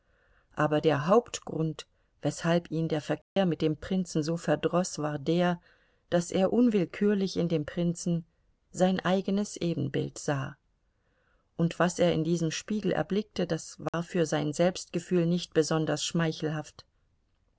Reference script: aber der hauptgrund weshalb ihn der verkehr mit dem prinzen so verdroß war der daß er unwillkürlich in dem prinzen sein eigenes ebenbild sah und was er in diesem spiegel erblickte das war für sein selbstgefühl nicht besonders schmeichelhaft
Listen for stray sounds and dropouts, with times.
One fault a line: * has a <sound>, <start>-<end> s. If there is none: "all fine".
* has a dropout, 3.2-3.4 s
* has a dropout, 13.9-13.9 s